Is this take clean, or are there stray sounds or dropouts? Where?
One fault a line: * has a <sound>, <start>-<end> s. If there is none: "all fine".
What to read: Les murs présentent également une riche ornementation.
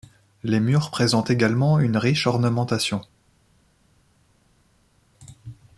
all fine